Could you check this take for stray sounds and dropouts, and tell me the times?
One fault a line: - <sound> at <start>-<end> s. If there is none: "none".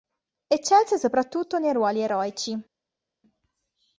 none